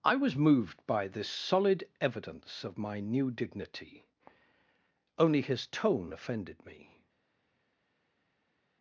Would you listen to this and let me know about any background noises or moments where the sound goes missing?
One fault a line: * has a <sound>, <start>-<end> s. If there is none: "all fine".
all fine